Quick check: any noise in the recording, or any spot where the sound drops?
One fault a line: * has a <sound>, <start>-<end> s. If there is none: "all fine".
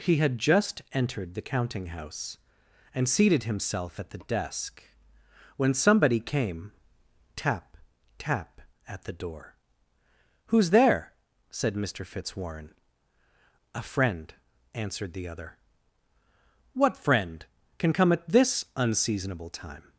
all fine